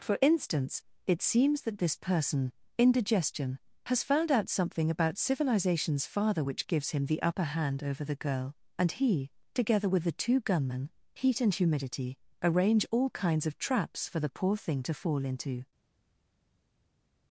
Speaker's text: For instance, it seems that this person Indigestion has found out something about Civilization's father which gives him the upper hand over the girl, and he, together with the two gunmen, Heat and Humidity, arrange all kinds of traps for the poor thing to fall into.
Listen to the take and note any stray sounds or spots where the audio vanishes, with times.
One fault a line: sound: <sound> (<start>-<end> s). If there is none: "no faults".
no faults